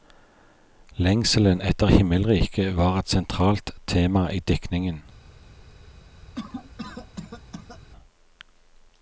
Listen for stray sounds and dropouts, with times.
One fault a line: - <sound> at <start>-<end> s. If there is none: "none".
- cough at 6.3-7.8 s